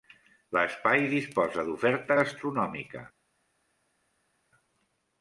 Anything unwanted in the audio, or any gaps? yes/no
no